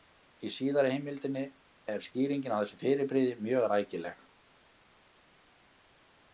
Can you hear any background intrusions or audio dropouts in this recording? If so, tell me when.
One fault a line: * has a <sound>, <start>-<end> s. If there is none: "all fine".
all fine